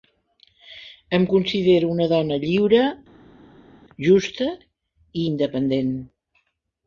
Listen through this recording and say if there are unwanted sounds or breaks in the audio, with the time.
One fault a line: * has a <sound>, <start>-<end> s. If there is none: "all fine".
all fine